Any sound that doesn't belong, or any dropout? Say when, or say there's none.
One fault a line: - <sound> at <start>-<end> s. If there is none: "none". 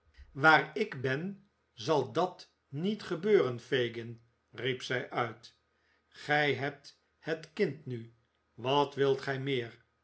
none